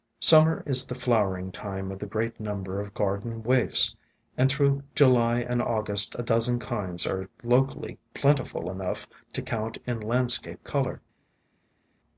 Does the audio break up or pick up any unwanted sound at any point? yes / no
no